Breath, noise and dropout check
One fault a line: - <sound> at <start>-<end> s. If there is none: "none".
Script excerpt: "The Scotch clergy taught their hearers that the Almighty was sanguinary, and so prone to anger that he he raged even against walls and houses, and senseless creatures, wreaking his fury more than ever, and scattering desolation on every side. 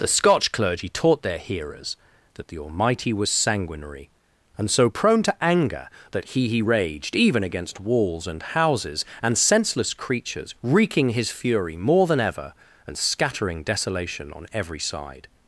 none